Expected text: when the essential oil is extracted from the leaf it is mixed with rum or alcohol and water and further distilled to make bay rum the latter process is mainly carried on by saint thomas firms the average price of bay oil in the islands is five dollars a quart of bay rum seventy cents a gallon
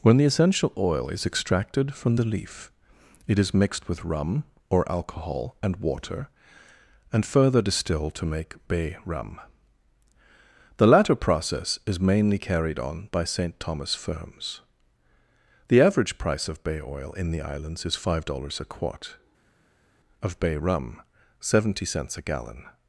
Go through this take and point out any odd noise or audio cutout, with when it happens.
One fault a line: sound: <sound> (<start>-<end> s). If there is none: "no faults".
no faults